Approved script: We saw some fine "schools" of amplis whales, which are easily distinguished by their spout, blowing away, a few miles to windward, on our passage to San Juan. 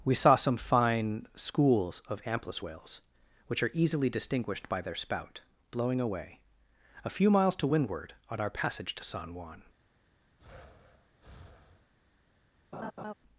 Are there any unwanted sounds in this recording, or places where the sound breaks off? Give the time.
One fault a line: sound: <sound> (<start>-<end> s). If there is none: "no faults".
sound: breath (10.4-11.9 s)
sound: laugh (12.7-13.1 s)